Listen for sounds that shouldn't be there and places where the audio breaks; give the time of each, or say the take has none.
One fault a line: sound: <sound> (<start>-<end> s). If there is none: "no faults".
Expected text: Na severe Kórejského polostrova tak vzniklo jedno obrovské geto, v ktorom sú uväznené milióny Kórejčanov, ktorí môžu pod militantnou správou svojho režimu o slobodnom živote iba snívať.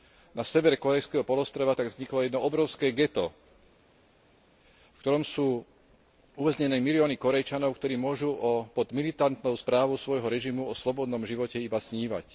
no faults